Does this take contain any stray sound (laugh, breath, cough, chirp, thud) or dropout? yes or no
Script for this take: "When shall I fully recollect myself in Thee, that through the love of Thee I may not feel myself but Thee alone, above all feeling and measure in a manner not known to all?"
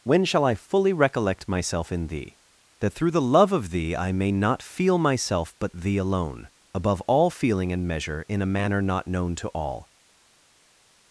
no